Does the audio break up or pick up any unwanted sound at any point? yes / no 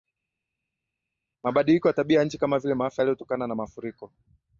no